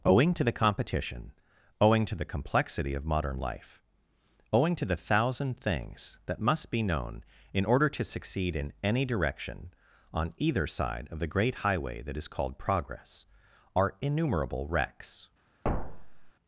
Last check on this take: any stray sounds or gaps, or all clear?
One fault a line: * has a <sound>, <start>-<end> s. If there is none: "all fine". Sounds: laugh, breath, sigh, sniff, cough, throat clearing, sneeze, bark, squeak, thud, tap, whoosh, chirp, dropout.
* has a thud, 15.6-16.3 s